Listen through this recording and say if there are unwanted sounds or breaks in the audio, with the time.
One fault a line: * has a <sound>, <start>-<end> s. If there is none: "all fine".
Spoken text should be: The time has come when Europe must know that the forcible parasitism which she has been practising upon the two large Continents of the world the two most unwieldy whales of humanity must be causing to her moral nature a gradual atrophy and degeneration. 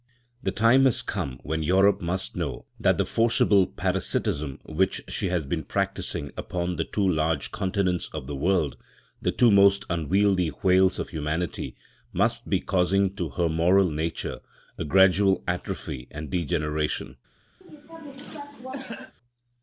* has a cough, 17.6-19.1 s